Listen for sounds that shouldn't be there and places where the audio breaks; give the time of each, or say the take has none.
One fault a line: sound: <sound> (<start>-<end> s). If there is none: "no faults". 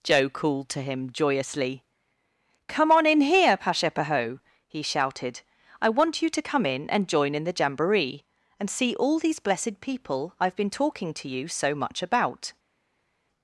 no faults